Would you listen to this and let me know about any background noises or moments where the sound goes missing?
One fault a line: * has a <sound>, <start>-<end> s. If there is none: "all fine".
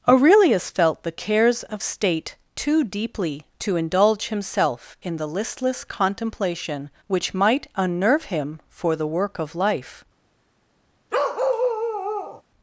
* has a bark, 11.1-12.4 s